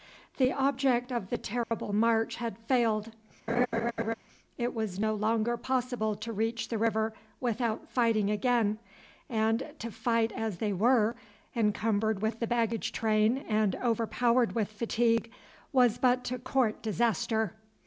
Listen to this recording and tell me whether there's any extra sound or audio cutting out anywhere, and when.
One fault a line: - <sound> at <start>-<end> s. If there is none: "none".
- dropout at 1.6-1.7 s
- laugh at 3.5-4.1 s